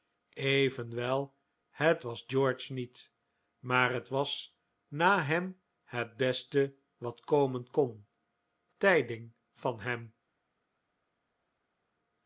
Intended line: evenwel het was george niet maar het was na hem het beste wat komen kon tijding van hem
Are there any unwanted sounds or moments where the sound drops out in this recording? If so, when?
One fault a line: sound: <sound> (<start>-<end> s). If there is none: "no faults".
no faults